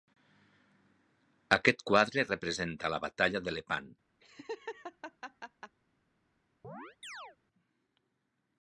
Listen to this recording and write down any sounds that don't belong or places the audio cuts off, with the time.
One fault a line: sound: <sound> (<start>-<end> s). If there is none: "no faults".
sound: laugh (4.2-5.8 s)
sound: chirp (6.6-7.4 s)